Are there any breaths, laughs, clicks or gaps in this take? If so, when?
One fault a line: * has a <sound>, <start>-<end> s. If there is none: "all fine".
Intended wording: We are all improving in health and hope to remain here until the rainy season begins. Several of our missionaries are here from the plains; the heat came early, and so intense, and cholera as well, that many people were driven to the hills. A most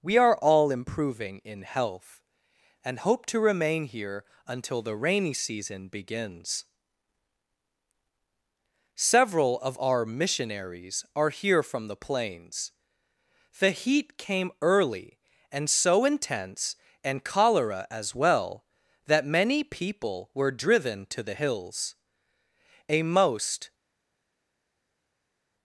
all fine